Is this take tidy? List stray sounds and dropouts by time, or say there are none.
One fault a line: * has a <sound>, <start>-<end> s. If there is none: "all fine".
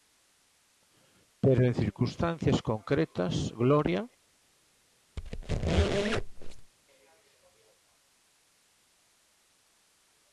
* has a squeak, 5.2-6.7 s